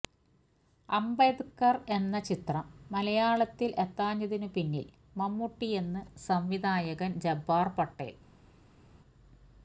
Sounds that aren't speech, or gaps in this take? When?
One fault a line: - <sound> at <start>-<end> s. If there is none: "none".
none